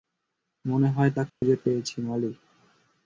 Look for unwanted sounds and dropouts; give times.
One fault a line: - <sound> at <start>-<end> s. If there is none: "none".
- dropout at 1.3-1.4 s